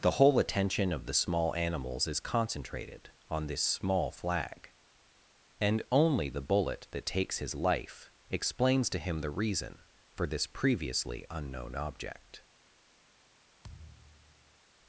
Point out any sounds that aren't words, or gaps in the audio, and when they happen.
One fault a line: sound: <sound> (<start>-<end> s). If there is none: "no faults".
sound: thud (13.6-14.6 s)